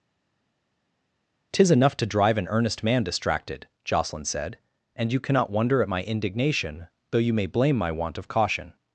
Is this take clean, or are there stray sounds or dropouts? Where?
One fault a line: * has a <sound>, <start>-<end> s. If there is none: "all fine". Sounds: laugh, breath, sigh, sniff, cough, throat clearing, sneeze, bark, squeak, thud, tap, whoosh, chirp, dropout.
all fine